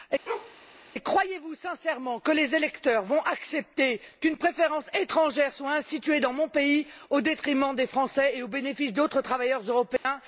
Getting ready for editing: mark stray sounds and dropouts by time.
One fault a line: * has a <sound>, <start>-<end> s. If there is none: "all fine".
* has a bark, 0.3-0.6 s
* has a dropout, 10.0-10.0 s